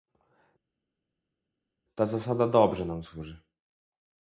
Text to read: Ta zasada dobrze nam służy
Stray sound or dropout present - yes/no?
no